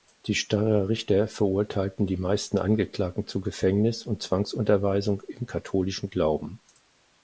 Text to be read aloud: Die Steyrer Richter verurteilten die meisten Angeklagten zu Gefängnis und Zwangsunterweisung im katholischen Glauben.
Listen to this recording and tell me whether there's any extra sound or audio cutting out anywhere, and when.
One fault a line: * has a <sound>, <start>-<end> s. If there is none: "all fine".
all fine